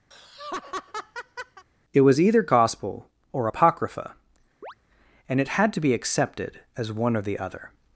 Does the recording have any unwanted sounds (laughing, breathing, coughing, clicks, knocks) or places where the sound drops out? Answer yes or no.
yes